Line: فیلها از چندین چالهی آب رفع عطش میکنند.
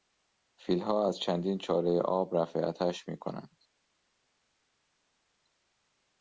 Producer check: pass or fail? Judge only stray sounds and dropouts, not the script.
pass